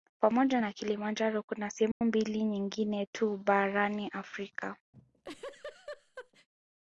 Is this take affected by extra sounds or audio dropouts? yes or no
yes